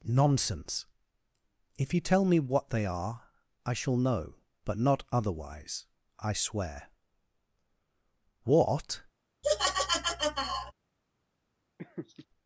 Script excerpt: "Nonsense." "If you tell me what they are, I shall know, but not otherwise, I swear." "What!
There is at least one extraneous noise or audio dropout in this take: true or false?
true